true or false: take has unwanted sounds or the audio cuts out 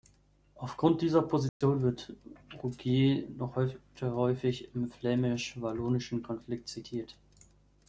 true